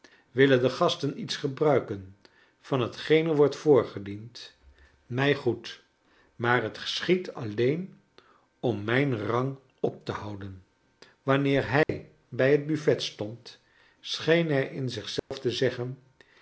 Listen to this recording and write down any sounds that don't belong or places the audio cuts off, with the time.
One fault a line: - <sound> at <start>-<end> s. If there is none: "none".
- dropout at 11.8-11.9 s
- dropout at 15.2-15.3 s